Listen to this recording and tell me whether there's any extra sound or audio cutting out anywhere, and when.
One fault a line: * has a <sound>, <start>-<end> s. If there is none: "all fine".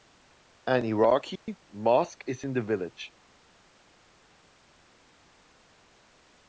* has a dropout, 1.4-1.5 s